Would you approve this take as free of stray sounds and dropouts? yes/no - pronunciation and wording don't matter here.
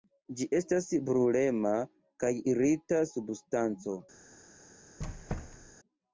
no